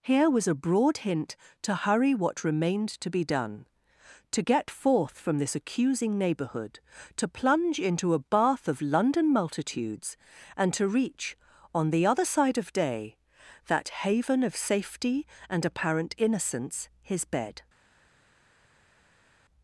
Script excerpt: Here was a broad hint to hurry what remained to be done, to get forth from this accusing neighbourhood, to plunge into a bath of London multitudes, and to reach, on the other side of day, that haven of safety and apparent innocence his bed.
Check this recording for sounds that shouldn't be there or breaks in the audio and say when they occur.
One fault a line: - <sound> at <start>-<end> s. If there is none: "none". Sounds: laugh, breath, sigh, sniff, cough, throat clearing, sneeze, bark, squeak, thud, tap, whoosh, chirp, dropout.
none